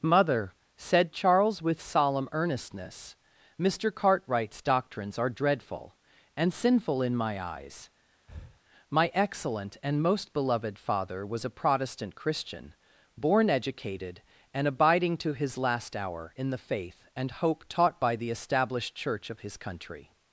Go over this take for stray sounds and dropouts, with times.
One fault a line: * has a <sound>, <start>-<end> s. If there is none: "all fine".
* has a breath, 8.3-8.6 s